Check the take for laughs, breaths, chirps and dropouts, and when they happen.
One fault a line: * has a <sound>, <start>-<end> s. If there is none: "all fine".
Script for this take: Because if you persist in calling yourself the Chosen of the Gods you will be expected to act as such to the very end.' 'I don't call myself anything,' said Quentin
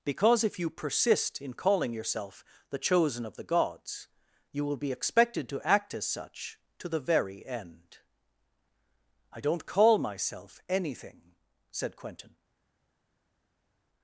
all fine